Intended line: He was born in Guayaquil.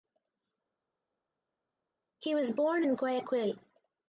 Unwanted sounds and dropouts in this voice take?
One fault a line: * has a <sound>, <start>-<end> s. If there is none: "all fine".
all fine